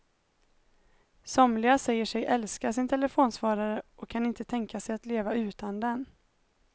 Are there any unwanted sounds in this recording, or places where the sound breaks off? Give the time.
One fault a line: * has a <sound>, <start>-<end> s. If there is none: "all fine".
all fine